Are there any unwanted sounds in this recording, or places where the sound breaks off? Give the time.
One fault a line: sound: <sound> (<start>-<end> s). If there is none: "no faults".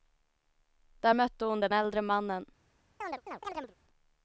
sound: chirp (3.0-3.8 s)